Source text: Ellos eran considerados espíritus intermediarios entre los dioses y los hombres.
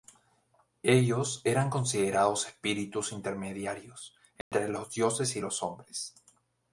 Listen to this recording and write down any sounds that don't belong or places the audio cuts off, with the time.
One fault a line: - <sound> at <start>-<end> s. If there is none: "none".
- dropout at 4.4-4.5 s